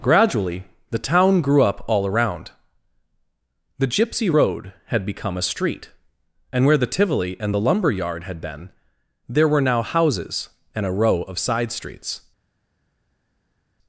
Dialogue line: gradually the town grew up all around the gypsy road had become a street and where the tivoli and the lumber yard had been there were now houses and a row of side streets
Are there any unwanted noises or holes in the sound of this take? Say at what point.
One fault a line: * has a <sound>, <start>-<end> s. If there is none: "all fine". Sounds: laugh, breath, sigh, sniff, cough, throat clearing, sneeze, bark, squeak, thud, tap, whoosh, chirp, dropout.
all fine